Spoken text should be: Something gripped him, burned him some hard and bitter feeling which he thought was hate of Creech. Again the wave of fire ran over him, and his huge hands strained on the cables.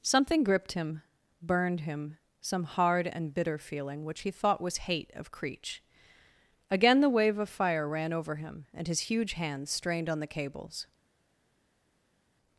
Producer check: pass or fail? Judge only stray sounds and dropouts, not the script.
pass